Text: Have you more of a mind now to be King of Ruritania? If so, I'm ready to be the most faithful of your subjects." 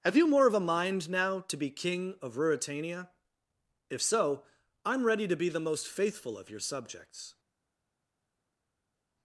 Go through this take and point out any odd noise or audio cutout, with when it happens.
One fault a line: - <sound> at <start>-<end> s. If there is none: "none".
none